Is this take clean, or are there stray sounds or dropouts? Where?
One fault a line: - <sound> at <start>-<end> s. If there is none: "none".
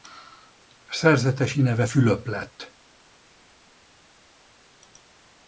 none